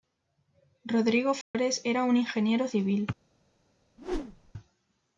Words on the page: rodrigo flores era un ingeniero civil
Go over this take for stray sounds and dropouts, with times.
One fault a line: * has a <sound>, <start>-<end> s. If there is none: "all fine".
* has a dropout, 1.4-1.5 s
* has a whoosh, 4.0-4.5 s